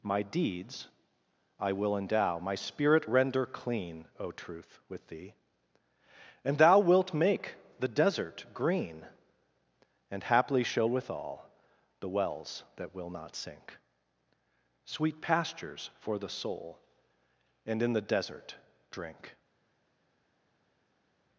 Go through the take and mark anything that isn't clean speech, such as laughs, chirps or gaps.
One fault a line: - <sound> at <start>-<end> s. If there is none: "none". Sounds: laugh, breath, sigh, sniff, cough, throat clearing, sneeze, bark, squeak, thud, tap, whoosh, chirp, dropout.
none